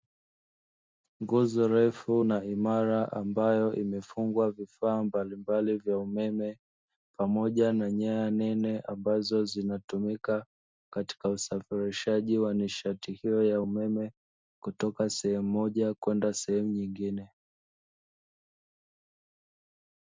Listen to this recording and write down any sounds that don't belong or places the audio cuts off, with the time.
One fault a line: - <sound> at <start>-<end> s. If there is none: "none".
none